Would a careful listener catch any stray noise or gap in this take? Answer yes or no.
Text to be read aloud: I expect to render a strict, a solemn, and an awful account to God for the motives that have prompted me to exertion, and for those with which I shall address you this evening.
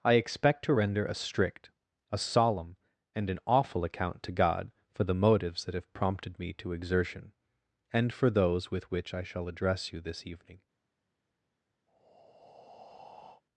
yes